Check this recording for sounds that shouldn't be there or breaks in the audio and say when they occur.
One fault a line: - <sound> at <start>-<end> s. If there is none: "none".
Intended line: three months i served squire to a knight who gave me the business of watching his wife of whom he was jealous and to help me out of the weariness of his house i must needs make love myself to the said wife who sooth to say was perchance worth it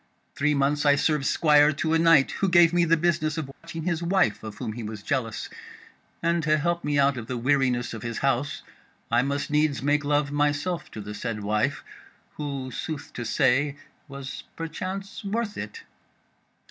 - dropout at 3.5-3.6 s